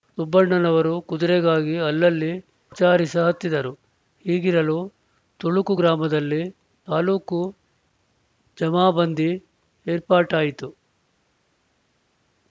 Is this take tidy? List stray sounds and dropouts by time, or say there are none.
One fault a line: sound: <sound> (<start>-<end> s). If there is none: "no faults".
no faults